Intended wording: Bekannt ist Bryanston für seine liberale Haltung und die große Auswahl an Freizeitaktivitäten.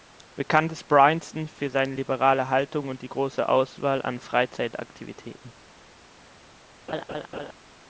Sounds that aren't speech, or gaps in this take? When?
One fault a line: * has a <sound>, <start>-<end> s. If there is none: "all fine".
* has a laugh, 6.9-7.5 s